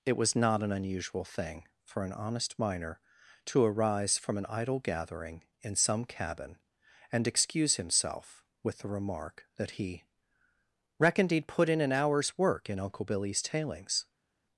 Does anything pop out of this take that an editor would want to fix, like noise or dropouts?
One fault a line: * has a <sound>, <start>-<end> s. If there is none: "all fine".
all fine